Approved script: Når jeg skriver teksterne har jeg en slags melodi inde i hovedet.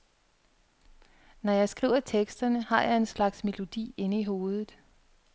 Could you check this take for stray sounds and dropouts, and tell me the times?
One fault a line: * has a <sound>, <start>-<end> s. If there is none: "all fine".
all fine